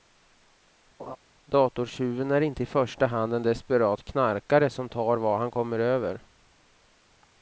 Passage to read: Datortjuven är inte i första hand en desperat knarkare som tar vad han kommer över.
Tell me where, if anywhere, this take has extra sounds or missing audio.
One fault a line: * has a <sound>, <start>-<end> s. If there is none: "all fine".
* has a laugh, 1.0-1.2 s